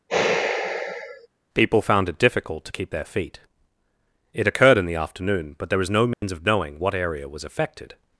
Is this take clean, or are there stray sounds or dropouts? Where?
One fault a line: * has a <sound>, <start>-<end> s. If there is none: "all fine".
* has a sigh, 0.1-1.3 s
* has a dropout, 6.1-6.2 s